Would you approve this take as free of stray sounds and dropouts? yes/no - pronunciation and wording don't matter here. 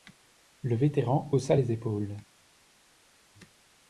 yes